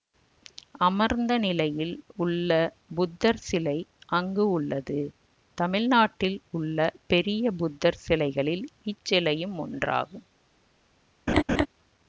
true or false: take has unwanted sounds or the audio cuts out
true